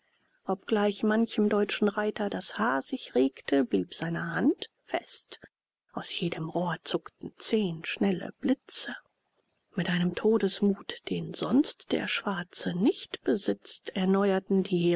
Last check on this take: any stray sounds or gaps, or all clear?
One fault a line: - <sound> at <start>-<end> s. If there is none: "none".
none